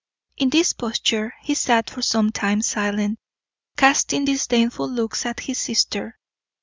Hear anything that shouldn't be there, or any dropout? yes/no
no